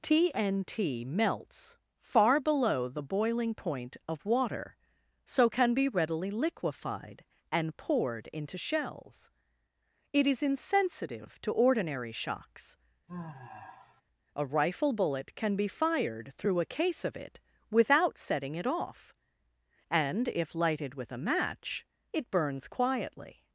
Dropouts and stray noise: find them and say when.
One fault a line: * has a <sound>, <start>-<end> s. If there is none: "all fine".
* has a sigh, 13.1-14.0 s